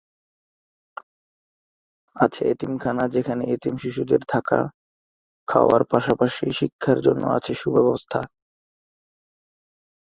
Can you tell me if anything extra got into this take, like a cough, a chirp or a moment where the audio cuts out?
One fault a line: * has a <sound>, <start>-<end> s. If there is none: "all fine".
all fine